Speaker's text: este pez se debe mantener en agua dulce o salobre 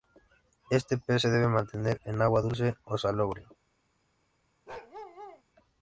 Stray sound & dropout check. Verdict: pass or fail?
fail